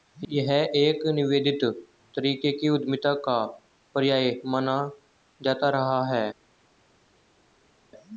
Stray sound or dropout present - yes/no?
no